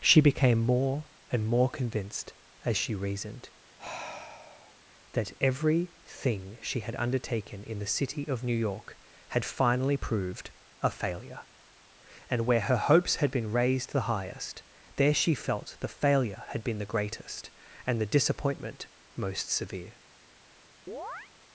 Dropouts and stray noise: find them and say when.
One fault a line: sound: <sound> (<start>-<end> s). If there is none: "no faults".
sound: sigh (3.8-4.8 s)
sound: chirp (20.9-21.3 s)